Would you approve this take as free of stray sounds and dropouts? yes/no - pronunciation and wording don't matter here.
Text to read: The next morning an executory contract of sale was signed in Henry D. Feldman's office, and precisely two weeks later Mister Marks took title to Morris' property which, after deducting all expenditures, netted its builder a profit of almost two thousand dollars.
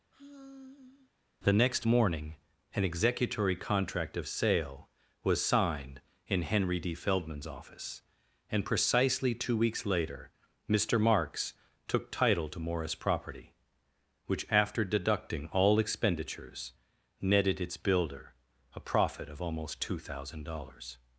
no